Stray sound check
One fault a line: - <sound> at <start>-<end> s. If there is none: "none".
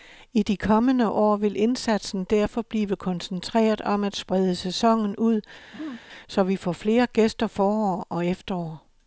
- throat clearing at 5.7-6.0 s